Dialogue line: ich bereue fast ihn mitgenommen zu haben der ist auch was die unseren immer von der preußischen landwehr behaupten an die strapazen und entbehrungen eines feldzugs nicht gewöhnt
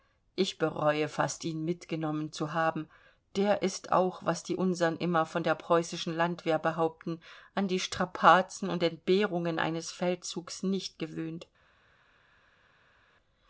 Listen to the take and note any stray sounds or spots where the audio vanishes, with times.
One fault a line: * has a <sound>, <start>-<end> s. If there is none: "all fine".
all fine